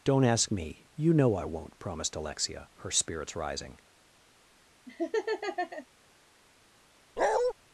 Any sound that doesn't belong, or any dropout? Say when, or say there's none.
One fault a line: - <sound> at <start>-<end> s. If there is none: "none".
- laugh at 4.9-5.9 s
- bark at 7.2-7.5 s